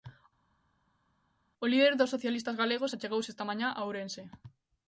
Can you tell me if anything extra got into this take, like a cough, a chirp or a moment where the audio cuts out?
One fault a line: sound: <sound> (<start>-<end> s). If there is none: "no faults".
no faults